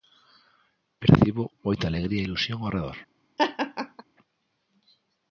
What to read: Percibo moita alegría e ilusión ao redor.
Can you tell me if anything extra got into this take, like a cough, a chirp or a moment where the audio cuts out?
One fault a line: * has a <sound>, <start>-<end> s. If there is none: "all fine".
* has a laugh, 3.4-4.0 s